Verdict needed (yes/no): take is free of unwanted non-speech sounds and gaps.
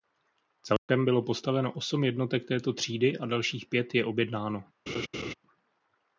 no